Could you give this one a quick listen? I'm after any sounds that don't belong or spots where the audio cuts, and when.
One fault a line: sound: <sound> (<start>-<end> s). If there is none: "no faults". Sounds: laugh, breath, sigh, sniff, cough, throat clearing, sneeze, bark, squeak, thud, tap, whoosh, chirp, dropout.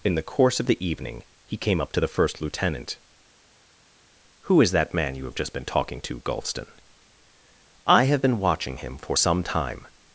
no faults